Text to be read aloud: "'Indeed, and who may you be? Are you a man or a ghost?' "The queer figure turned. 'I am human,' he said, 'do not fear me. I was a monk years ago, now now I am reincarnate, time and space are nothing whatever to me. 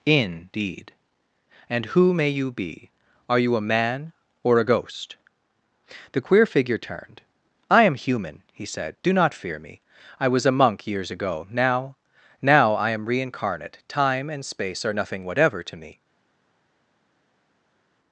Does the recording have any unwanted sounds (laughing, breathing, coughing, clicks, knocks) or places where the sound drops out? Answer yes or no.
no